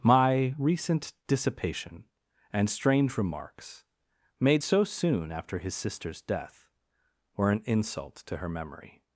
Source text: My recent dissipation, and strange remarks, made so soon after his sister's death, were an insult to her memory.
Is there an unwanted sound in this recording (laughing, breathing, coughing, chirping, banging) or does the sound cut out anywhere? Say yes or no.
no